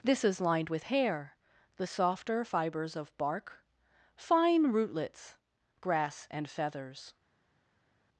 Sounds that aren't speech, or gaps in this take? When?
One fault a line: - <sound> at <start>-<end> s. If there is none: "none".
none